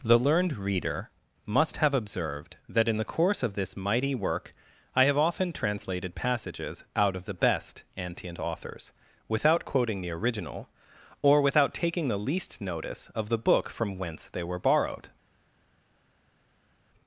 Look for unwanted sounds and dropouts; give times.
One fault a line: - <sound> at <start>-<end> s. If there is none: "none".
none